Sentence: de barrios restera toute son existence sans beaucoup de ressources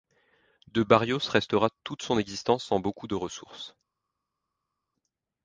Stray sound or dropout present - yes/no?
no